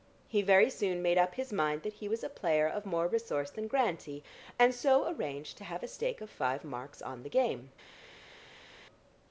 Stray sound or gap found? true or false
false